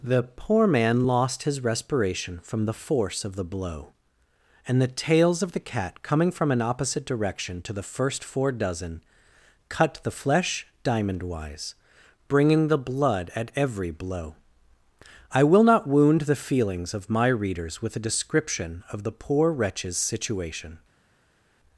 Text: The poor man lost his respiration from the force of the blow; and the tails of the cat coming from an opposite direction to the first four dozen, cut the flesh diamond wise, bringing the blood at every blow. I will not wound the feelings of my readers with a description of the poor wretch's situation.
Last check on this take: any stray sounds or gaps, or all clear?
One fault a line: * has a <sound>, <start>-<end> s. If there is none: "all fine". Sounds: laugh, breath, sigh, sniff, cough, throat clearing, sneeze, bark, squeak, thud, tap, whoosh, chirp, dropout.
all fine